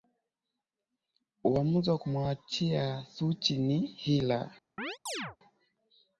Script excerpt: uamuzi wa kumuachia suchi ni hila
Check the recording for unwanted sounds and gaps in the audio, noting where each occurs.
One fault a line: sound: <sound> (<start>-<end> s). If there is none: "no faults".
sound: chirp (4.8-5.4 s)